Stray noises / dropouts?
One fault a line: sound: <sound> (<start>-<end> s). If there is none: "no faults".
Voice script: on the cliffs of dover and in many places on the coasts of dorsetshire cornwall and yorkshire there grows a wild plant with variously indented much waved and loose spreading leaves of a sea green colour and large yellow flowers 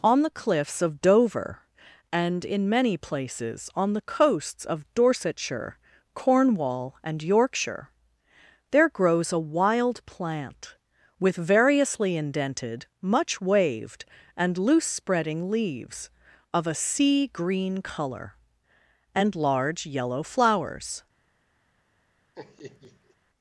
sound: laugh (22.3-23.2 s)